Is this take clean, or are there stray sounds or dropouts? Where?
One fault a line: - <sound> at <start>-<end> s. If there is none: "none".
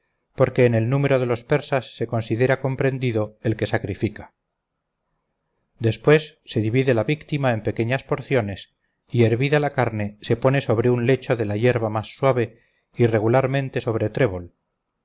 none